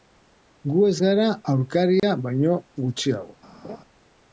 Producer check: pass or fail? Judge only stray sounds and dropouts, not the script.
fail